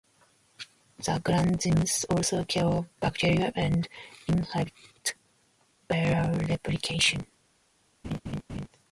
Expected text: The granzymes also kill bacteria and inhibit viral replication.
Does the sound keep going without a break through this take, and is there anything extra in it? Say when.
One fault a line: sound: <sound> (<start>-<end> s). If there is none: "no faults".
sound: laugh (8.0-8.7 s)